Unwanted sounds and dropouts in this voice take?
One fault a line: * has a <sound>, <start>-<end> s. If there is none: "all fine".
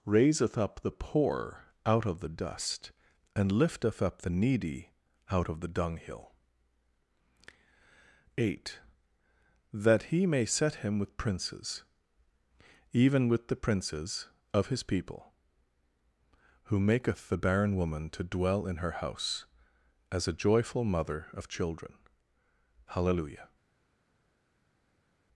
all fine